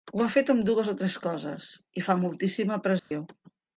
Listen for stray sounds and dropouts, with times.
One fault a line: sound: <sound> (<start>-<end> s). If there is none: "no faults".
sound: dropout (3.0-3.1 s)